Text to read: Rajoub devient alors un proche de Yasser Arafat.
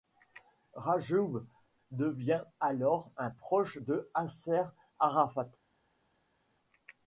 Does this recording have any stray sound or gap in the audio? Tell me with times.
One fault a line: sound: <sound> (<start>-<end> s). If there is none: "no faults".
no faults